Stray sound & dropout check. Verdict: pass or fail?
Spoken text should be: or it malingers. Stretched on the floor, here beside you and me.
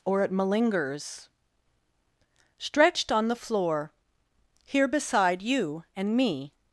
pass